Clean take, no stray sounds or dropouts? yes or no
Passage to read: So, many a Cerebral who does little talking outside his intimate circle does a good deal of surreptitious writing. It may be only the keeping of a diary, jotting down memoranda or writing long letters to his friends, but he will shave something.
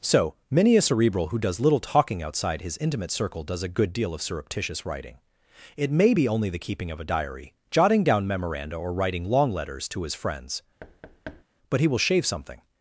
no